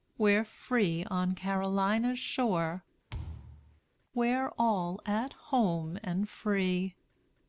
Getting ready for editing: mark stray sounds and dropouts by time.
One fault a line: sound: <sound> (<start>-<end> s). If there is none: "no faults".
sound: thud (3.1-3.8 s)